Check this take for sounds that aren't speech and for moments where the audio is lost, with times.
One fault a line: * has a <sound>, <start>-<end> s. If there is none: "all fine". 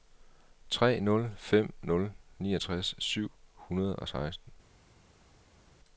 all fine